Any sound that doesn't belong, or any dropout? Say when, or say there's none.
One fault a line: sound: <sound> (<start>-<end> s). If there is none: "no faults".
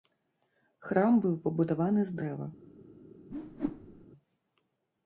sound: whoosh (3.3-4.1 s)